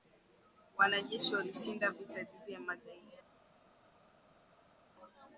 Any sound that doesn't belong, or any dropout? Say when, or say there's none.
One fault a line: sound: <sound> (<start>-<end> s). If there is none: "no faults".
no faults